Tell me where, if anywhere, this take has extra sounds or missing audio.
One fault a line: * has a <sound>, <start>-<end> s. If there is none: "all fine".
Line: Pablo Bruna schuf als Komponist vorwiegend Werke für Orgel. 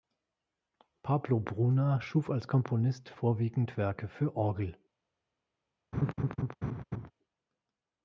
* has a laugh, 5.9-7.1 s